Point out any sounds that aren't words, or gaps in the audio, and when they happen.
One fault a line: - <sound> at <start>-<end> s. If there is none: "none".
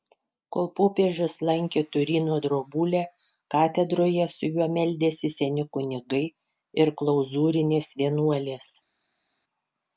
none